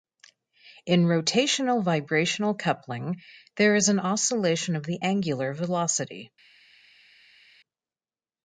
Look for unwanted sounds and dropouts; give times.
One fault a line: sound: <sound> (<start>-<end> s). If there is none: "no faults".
no faults